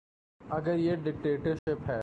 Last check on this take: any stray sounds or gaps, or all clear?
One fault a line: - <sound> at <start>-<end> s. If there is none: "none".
- dropout at 1.6-1.7 s